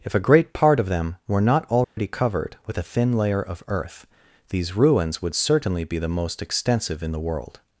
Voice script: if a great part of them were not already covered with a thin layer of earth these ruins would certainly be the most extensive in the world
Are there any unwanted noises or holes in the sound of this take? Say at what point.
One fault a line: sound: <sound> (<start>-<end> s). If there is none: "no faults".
sound: dropout (1.8-2.0 s)